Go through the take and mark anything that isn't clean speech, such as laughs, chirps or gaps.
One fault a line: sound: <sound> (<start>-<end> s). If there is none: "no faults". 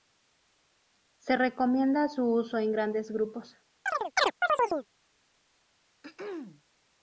sound: chirp (3.9-4.9 s)
sound: throat clearing (6.0-6.6 s)